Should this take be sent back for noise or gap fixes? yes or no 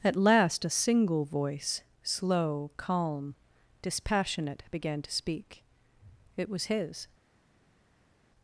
no